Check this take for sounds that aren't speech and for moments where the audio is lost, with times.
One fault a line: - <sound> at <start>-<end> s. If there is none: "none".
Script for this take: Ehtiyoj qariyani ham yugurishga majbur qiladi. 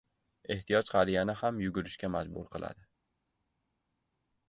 none